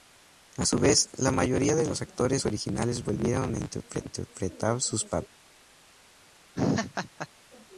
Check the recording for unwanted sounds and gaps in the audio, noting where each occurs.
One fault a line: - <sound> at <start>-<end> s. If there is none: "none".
- laugh at 6.6-7.3 s